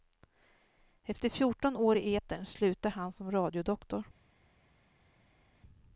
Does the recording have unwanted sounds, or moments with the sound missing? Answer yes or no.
no